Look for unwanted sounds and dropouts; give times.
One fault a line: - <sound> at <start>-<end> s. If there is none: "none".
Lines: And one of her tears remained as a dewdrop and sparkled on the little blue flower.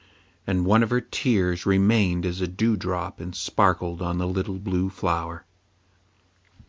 none